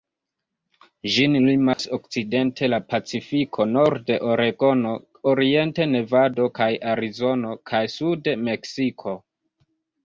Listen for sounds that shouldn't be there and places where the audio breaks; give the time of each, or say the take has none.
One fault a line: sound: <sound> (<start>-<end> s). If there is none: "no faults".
sound: dropout (1.7-1.8 s)